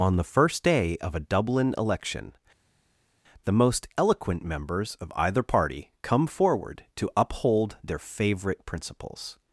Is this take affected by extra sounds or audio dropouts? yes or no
no